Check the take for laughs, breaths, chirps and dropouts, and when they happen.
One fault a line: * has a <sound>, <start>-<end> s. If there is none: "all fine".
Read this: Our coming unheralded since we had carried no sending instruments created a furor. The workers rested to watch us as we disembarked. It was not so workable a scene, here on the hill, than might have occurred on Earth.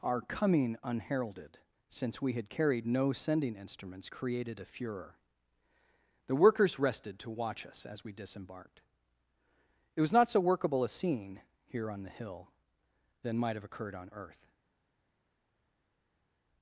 all fine